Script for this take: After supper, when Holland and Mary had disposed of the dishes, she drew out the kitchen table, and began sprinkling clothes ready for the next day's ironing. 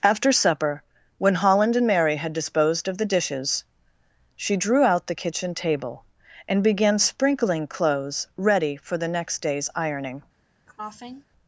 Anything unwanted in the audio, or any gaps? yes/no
yes